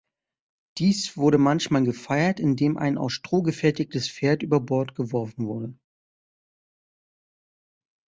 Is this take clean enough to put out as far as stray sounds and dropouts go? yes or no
yes